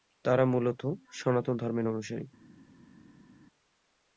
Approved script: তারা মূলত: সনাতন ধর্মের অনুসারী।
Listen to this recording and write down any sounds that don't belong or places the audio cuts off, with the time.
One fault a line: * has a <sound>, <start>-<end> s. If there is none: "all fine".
all fine